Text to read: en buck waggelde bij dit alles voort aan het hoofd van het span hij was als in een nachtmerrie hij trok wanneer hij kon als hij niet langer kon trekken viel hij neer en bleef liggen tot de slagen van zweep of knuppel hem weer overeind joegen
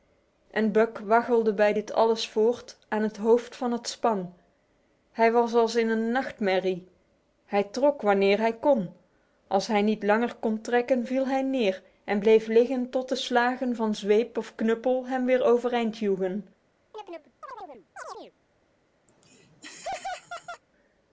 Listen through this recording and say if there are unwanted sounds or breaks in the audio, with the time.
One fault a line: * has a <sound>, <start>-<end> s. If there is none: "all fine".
* has a chirp, 16.9-18.3 s
* has a laugh, 19.1-20.6 s